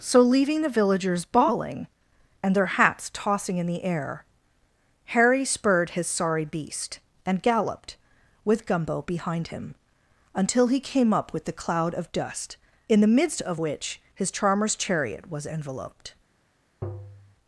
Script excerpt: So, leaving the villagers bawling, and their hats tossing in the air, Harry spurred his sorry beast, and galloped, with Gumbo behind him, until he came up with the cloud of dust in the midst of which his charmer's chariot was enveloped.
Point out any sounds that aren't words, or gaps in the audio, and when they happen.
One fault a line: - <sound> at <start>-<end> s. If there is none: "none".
- tap at 16.8-17.4 s